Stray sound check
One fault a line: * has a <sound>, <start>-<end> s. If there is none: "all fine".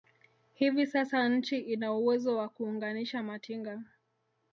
all fine